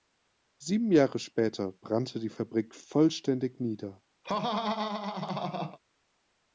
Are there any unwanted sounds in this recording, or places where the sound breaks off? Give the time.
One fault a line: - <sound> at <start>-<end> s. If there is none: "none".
- laugh at 4.2-5.8 s